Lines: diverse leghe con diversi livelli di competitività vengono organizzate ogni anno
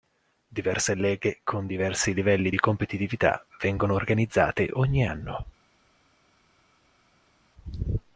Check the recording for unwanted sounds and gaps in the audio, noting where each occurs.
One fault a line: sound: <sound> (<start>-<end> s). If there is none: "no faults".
no faults